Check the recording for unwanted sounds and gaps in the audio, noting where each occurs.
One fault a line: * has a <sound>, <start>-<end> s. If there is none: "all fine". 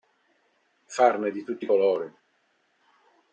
all fine